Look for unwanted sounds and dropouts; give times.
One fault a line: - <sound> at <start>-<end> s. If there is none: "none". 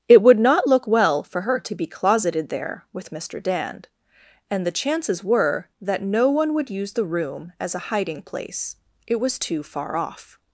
none